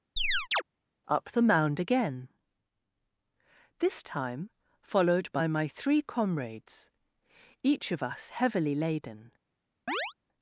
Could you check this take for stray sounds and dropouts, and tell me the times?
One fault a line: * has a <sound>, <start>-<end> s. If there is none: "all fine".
* has a chirp, 0.2-0.6 s
* has a chirp, 9.9-10.1 s